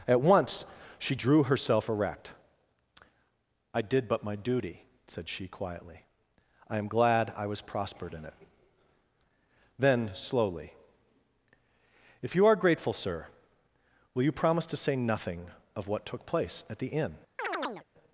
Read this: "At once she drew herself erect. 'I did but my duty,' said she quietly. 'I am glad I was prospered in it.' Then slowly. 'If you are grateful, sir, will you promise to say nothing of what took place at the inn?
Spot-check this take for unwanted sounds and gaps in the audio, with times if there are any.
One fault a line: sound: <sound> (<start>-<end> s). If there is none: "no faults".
sound: chirp (17.4-17.9 s)